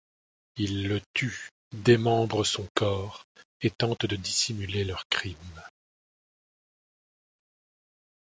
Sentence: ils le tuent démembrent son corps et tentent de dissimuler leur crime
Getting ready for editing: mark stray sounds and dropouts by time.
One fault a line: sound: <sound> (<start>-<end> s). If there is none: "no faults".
no faults